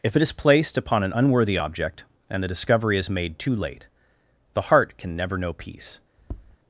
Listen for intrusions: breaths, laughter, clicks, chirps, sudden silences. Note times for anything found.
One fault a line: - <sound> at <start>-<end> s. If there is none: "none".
- tap at 6.2-6.6 s